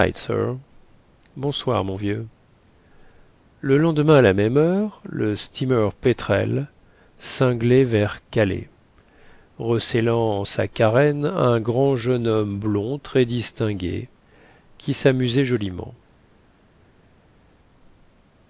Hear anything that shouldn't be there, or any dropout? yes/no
no